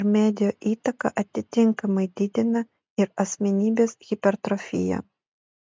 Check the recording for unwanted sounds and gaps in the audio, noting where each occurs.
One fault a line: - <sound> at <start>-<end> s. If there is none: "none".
none